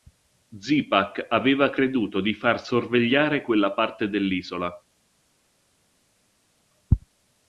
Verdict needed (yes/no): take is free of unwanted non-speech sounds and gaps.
yes